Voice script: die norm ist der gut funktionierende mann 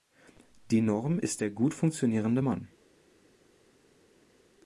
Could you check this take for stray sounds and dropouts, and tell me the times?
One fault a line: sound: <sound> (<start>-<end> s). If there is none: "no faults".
no faults